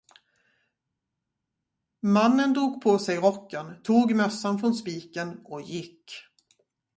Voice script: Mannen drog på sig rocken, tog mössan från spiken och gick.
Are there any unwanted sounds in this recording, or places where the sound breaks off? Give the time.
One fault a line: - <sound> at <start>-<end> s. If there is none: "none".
none